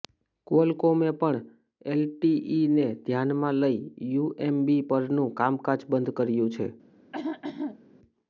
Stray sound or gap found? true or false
true